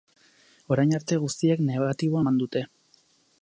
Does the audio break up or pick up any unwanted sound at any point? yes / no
no